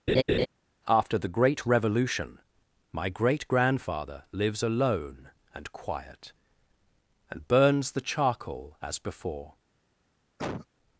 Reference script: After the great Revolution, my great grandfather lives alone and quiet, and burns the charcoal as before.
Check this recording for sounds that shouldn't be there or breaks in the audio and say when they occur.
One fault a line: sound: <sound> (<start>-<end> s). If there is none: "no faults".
sound: laugh (0.1-0.5 s)
sound: cough (10.4-10.7 s)